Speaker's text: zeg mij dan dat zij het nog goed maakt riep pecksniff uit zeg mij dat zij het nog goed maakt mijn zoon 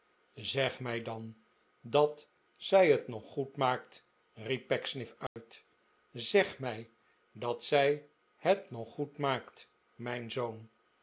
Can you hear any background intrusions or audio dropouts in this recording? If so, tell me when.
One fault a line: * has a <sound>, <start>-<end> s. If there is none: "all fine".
* has a dropout, 5.3-5.4 s